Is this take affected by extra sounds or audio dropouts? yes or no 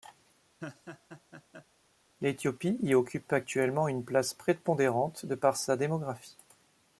yes